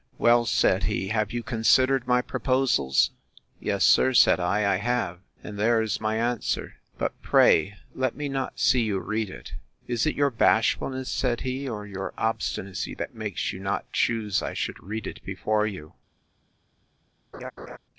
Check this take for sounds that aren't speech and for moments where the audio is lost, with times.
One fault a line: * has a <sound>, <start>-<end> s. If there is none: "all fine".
* has a laugh, 17.3-17.8 s